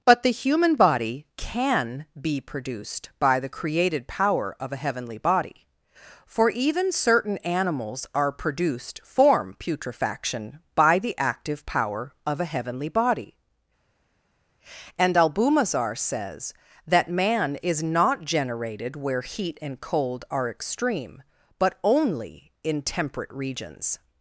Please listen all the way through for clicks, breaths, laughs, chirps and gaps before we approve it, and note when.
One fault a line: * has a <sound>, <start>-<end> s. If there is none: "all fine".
all fine